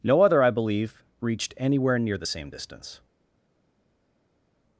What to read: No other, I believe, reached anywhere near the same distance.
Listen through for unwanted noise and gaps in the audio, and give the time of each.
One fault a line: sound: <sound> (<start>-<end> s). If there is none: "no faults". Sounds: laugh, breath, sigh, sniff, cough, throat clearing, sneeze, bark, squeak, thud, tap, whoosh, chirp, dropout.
no faults